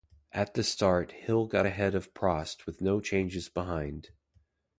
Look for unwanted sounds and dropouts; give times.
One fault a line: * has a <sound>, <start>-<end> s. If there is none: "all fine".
all fine